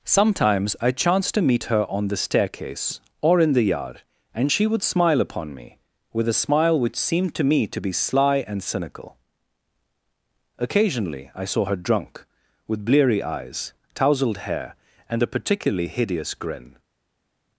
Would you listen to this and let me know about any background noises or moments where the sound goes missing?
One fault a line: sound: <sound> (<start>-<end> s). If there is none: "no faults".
no faults